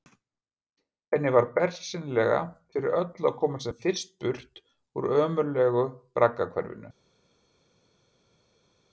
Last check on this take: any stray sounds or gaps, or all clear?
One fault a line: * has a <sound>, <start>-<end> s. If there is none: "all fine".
all fine